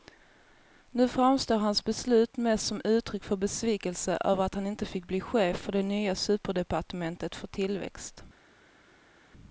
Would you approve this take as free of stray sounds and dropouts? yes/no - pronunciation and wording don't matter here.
yes